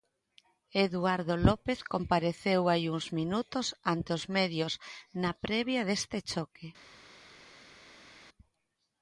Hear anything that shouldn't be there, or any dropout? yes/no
no